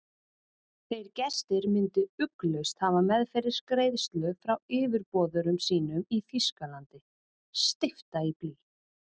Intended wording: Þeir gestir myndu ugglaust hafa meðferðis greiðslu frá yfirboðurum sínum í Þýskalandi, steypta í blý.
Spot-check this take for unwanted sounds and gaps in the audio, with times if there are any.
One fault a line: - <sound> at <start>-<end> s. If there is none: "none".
none